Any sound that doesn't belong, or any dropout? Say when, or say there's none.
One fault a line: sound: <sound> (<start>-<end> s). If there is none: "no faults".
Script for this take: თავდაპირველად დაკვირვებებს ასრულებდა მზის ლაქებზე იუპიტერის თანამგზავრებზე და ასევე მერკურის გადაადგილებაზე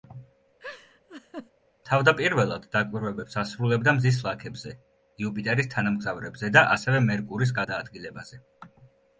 sound: laugh (0.6-1.5 s)